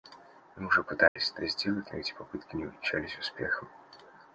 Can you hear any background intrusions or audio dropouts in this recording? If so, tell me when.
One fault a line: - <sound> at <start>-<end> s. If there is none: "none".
- dropout at 1.1-1.2 s